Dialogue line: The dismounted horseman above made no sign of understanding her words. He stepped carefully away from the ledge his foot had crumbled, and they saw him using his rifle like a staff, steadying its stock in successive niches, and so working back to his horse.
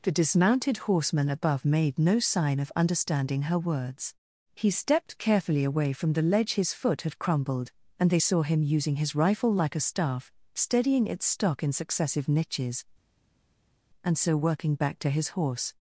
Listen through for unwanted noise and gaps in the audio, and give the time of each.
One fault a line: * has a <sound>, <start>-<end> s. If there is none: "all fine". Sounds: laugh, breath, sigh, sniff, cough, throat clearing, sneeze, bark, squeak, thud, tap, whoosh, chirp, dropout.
all fine